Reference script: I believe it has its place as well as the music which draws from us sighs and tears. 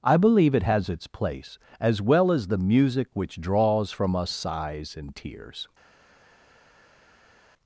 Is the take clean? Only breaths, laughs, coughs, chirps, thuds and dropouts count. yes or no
yes